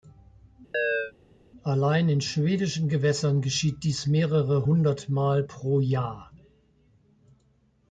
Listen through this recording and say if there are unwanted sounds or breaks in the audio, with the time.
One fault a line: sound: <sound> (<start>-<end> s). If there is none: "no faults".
sound: chirp (0.7-1.1 s)